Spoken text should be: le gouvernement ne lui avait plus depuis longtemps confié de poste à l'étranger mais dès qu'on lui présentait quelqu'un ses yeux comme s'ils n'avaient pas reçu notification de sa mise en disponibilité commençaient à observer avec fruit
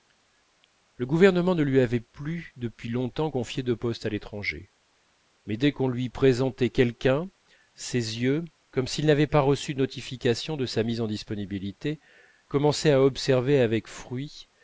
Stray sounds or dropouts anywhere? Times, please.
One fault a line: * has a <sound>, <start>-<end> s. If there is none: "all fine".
all fine